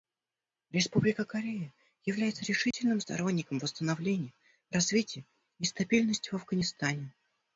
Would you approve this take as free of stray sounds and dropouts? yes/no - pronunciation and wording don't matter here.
no